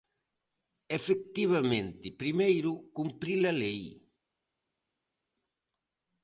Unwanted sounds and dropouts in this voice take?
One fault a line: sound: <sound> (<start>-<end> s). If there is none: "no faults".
no faults